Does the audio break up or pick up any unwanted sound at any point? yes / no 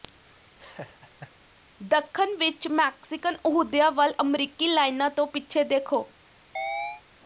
yes